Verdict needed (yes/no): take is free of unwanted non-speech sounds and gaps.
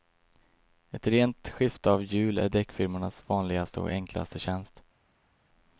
yes